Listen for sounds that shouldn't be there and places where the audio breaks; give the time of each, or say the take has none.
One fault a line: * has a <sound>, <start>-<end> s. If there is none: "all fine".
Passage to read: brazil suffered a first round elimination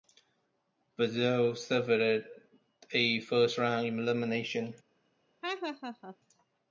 * has a laugh, 5.4-6.2 s